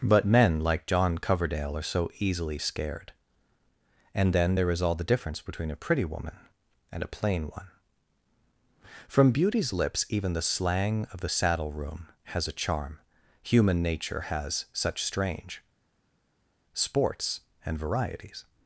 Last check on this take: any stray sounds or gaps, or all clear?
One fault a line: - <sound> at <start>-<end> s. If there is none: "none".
none